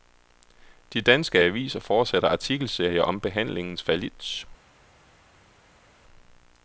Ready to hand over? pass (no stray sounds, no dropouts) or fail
pass